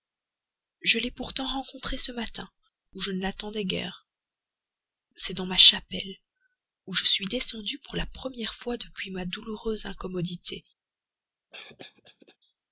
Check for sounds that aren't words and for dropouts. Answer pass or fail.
fail